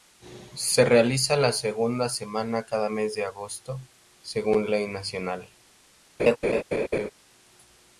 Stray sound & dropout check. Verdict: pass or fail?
fail